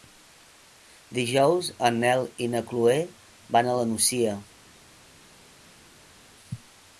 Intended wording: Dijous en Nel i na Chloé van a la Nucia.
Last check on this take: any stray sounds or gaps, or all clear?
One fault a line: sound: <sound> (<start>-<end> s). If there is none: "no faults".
no faults